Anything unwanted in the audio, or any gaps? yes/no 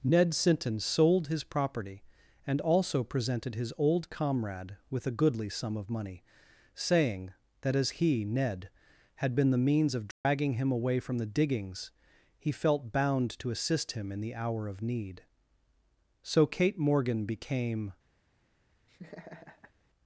yes